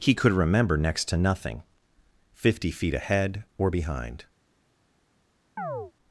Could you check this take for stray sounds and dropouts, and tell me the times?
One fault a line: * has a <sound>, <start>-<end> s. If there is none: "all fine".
* has a chirp, 5.6-5.9 s